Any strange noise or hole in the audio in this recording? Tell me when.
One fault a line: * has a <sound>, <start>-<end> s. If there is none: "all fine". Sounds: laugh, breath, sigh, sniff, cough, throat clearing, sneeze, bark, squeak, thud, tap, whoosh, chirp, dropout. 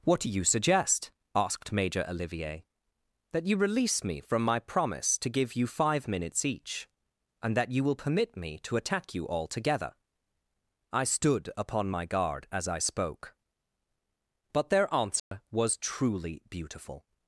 * has a dropout, 15.2-15.3 s